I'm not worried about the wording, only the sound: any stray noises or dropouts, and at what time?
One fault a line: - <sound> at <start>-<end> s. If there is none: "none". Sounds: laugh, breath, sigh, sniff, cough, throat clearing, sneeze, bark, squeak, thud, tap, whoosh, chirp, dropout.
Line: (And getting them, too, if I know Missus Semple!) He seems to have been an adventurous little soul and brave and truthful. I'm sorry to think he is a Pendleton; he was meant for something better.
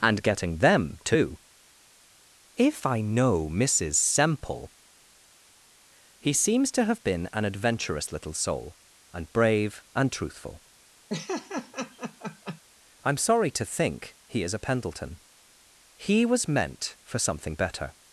- laugh at 11.1-12.6 s